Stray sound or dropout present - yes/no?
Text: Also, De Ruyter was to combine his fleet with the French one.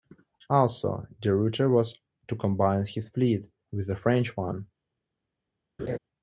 yes